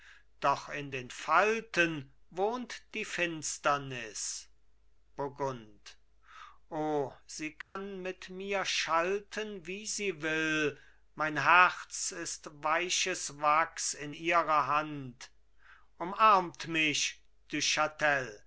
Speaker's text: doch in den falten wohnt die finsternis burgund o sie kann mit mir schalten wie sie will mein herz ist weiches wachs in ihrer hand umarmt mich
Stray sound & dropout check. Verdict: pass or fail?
fail